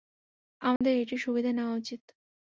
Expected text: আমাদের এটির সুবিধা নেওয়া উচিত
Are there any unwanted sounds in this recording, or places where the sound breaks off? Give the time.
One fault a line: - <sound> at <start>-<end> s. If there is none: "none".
- dropout at 0.8-0.8 s